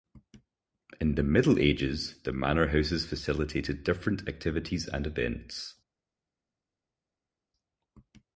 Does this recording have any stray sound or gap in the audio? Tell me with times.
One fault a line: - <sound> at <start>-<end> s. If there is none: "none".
none